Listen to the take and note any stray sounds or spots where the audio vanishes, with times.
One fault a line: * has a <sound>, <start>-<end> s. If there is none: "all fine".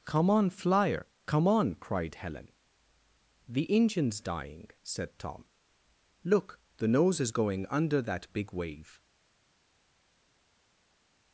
all fine